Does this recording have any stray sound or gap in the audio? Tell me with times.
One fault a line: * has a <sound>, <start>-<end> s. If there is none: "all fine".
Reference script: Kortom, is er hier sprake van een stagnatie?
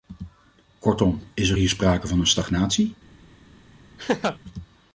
* has a laugh, 4.0-4.4 s